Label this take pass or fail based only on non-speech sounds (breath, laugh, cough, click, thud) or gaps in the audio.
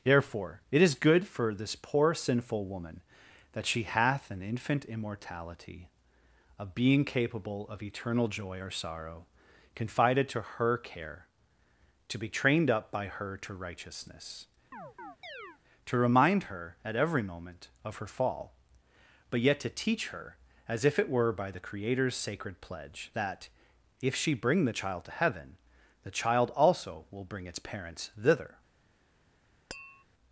fail